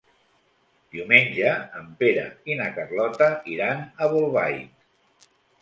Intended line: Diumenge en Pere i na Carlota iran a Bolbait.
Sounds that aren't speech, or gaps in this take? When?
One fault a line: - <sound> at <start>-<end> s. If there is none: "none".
none